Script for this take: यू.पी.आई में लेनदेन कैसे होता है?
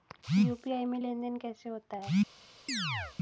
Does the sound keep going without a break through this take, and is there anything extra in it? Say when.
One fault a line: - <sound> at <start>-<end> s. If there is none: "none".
- chirp at 2.7-3.2 s